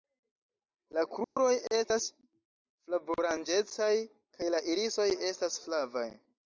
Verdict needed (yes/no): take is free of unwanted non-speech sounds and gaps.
no